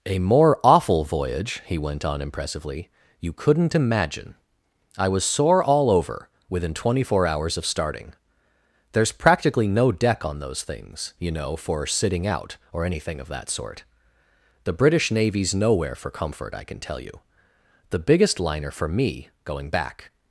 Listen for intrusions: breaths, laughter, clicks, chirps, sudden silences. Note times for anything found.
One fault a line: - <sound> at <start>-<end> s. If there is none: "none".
none